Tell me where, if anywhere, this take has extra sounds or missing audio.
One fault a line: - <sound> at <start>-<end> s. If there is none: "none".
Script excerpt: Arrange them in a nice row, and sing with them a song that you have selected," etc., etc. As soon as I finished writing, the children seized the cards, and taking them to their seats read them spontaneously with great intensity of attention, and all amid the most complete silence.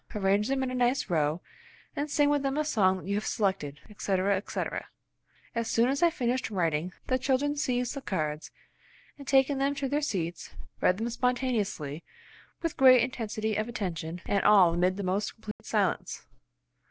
- dropout at 15.5-15.6 s